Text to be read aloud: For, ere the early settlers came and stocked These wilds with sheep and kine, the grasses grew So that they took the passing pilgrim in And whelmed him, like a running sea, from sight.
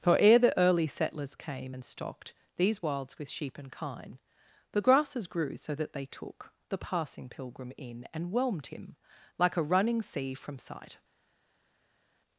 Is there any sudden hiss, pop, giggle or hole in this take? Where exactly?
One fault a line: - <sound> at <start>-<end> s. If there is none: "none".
none